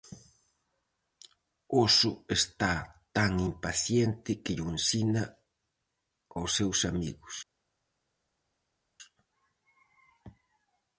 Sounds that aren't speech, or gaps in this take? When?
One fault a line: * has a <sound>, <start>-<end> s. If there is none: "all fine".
all fine